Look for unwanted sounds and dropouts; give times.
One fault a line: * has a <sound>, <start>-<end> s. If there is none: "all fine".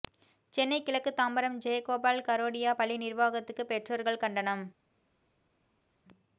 all fine